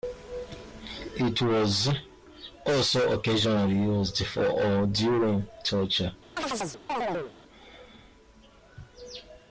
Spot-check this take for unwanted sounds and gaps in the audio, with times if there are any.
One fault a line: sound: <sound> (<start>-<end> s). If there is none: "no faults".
sound: chirp (6.4-7.3 s)